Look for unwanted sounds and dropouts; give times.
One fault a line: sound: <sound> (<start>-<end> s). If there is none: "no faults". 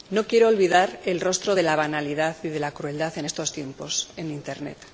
no faults